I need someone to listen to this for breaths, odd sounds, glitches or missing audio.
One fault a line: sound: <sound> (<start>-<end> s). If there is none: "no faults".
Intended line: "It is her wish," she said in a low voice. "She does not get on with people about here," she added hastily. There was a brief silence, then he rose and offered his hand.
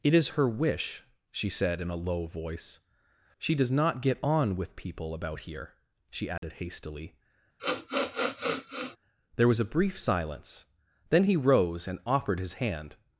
sound: dropout (6.4-6.4 s)
sound: sniff (7.6-9.0 s)